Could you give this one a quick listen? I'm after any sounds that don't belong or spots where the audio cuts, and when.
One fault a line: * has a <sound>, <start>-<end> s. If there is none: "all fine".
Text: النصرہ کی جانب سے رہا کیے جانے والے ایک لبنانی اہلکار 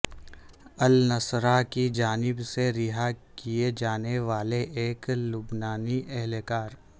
all fine